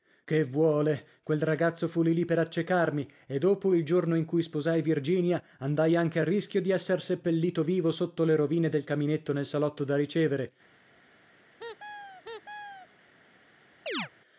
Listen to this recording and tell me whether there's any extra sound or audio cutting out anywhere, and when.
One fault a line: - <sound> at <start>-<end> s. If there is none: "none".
- squeak at 11.6-12.9 s
- chirp at 13.9-14.1 s